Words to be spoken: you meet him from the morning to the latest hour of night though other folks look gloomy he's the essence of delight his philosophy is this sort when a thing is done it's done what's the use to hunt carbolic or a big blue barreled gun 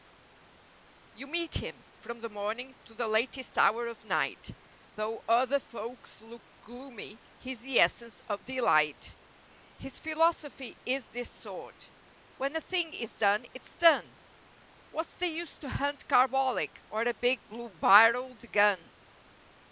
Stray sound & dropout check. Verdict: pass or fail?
pass